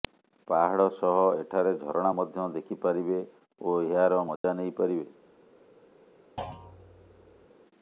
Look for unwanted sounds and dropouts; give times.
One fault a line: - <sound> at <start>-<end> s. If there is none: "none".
- dropout at 4.4-4.4 s
- thud at 6.4-7.5 s